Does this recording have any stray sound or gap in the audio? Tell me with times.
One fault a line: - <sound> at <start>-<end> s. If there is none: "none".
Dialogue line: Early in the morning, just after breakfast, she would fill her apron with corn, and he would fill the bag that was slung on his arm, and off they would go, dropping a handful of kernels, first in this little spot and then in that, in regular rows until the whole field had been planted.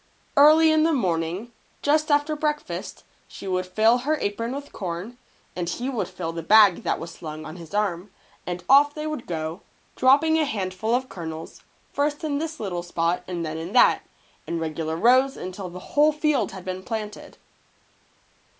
none